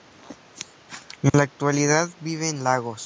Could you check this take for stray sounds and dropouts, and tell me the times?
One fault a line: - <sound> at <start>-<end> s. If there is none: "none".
- dropout at 1.3-1.3 s